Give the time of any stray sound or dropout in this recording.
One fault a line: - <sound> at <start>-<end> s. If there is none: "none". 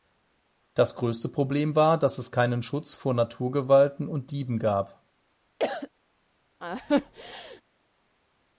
- cough at 5.6-5.9 s
- laugh at 6.6-7.6 s